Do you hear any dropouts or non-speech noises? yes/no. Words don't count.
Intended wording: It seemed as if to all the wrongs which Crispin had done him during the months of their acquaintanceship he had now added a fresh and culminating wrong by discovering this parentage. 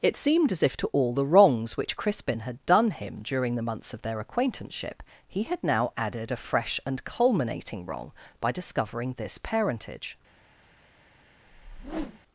yes